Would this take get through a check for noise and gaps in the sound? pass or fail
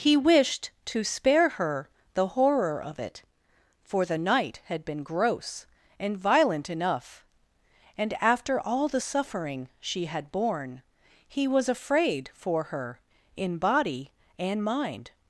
pass